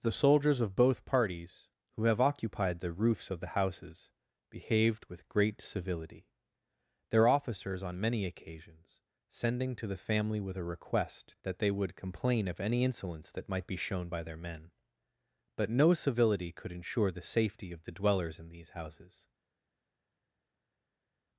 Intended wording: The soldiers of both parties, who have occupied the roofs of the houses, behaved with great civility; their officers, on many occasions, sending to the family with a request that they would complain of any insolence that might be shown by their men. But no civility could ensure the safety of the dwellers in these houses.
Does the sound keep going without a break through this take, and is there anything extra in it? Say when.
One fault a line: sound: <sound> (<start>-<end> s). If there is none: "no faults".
no faults